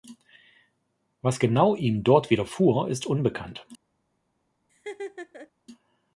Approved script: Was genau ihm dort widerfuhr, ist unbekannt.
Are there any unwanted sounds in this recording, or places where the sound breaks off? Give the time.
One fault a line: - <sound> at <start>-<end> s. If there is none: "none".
- laugh at 4.7-5.5 s